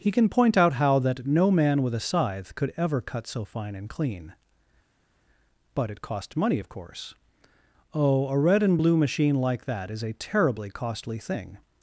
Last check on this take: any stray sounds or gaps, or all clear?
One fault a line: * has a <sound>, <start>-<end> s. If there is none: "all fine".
all fine